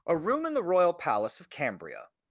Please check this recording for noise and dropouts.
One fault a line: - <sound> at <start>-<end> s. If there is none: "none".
none